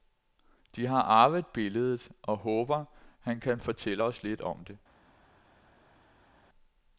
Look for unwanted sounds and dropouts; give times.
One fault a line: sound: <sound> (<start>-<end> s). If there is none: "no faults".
no faults